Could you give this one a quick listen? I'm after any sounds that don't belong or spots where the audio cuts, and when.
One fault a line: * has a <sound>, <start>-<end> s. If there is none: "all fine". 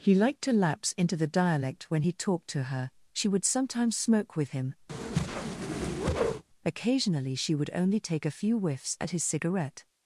* has a whoosh, 4.9-6.4 s